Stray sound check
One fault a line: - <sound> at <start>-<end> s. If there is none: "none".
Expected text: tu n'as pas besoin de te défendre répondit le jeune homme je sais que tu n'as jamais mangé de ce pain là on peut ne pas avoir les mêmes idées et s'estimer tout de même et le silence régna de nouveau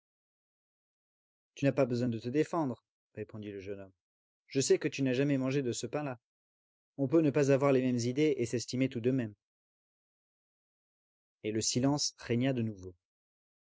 none